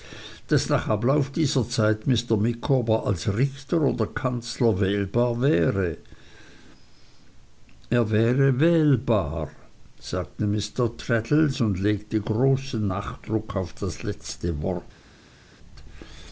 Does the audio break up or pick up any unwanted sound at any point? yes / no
no